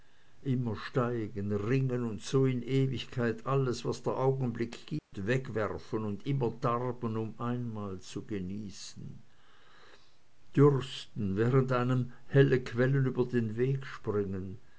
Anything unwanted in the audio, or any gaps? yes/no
yes